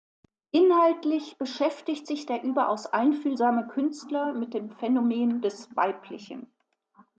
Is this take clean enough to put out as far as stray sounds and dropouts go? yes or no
yes